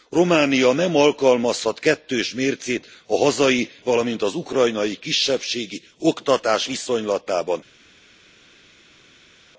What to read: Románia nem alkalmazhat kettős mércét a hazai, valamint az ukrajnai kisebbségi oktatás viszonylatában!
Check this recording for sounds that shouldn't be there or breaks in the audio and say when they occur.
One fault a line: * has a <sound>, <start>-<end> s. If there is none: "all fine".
all fine